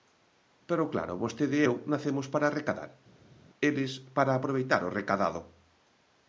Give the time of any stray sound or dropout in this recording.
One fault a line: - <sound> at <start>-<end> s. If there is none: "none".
none